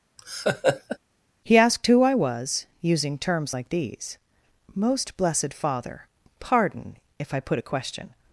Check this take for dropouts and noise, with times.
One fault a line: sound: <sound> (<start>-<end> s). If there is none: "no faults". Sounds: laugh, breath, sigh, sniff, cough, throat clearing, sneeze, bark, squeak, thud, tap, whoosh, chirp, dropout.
sound: laugh (0.2-1.0 s)